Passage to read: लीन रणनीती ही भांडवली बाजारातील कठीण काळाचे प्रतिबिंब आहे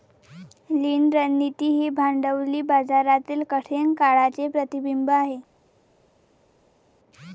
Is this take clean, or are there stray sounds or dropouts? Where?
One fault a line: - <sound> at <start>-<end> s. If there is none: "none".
none